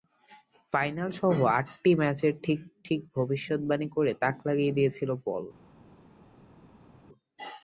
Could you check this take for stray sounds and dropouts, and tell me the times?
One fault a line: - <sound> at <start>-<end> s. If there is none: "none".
none